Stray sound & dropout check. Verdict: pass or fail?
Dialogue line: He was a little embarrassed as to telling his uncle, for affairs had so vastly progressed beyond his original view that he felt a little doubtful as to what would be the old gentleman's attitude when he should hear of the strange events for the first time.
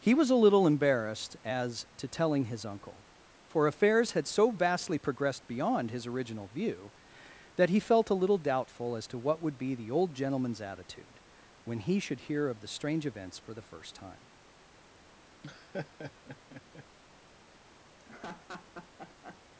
fail